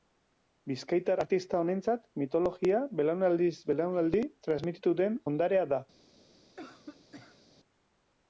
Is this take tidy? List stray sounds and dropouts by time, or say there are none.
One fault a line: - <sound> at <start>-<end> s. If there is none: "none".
- cough at 6.6-7.4 s